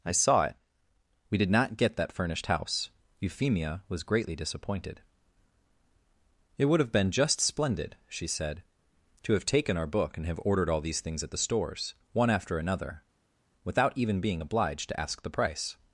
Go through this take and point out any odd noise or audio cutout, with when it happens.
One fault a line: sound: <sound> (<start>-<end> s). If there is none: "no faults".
no faults